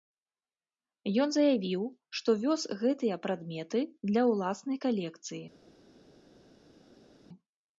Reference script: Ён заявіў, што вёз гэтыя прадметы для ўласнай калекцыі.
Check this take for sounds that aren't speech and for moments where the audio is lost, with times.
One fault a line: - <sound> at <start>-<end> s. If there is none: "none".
none